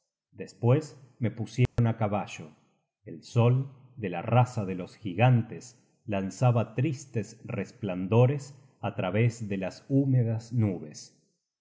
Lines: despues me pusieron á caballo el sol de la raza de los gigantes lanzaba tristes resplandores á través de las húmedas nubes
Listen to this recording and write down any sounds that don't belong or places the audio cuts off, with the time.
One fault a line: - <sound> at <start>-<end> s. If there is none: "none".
- dropout at 1.7-1.8 s